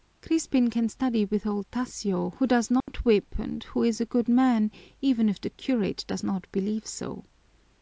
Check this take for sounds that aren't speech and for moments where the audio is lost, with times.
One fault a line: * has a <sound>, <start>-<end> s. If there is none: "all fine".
* has a dropout, 2.8-2.9 s